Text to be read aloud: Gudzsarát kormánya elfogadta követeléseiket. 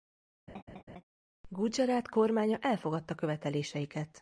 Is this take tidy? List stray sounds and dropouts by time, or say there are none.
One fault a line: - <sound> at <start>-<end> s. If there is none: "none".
- laugh at 0.5-1.0 s